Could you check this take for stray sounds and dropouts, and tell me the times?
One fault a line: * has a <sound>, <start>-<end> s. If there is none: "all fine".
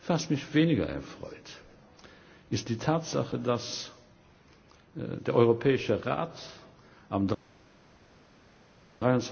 all fine